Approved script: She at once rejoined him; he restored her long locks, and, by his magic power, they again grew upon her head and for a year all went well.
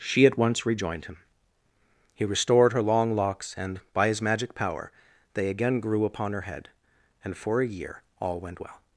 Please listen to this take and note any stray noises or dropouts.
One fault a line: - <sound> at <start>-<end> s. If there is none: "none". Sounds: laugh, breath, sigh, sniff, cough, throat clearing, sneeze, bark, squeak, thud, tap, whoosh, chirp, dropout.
none